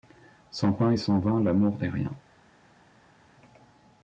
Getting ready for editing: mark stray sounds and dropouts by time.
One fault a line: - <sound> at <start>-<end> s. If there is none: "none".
none